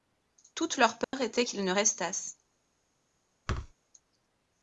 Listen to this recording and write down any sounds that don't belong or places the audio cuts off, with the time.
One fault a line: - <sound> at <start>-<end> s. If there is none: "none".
- dropout at 1.0-1.1 s
- thud at 3.5-3.7 s